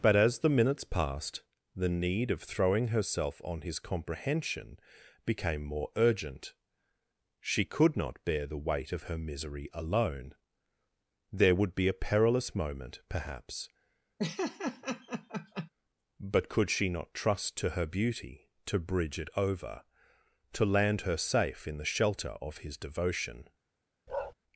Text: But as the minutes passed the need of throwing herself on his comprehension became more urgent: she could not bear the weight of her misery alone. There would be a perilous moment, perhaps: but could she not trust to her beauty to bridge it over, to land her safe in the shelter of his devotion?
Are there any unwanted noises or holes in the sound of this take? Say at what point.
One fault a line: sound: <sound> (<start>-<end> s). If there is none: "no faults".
sound: laugh (14.2-15.7 s)
sound: bark (24.1-24.3 s)